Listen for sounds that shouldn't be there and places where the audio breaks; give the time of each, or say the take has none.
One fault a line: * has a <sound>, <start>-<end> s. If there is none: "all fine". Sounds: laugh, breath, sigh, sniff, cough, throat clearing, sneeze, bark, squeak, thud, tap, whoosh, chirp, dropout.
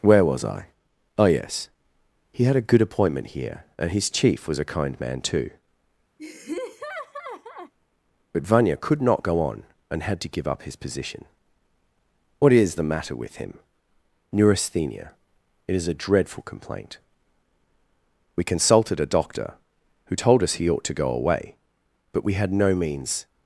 * has a laugh, 6.2-7.7 s